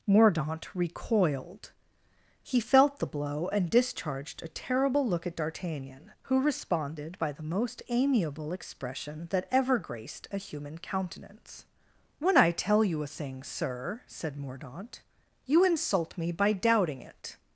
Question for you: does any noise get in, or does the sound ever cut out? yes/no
no